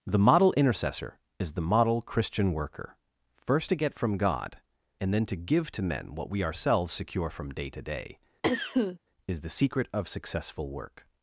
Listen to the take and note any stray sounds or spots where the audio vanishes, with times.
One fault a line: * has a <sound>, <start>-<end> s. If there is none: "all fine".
* has a cough, 8.4-9.0 s